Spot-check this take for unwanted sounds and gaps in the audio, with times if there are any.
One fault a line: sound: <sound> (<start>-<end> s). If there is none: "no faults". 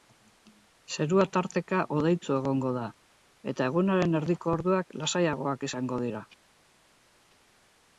no faults